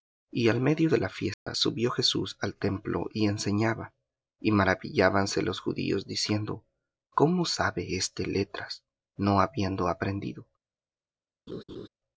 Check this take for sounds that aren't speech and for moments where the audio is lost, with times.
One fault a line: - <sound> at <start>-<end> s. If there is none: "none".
- dropout at 1.3-1.5 s
- laugh at 11.5-11.9 s